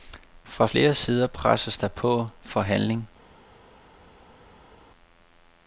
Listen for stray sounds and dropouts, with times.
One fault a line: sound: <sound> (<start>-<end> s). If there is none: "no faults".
no faults